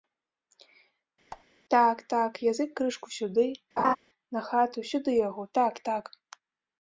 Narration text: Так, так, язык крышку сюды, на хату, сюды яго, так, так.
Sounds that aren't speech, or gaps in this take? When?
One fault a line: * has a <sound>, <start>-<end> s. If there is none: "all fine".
* has a squeak, 1.3-1.5 s
* has a laugh, 3.8-4.0 s